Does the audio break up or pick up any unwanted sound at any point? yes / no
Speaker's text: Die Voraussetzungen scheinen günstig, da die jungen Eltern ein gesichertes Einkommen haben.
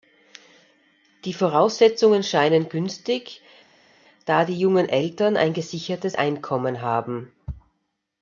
no